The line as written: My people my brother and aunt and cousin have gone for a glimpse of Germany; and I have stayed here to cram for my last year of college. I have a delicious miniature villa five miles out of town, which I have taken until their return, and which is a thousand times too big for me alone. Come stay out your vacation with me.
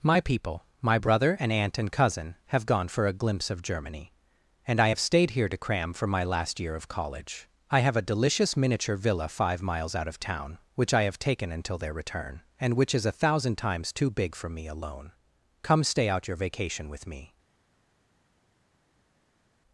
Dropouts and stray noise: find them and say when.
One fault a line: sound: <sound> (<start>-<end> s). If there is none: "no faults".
no faults